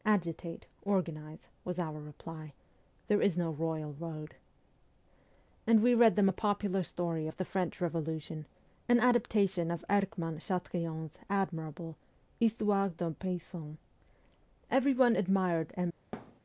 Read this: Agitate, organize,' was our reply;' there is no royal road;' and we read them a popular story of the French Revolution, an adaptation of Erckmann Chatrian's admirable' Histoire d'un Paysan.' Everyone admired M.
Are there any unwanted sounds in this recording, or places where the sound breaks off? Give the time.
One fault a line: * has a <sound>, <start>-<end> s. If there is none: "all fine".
* has a thud, 16.1-16.4 s